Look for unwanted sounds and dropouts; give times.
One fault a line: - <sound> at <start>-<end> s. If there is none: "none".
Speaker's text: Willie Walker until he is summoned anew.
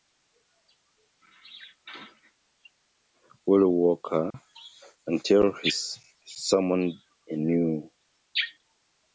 - dropout at 4.3-4.3 s